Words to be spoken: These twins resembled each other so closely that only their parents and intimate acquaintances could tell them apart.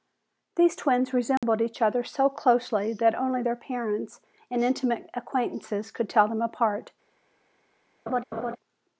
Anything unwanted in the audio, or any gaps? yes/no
yes